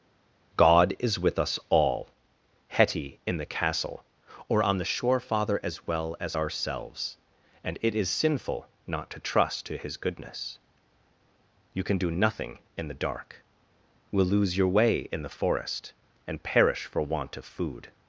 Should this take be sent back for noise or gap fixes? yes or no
no